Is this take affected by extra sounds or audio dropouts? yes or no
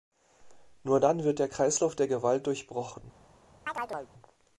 yes